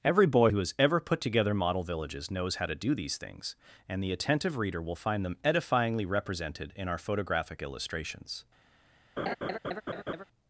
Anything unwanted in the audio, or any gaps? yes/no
yes